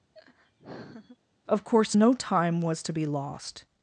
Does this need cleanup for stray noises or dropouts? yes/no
yes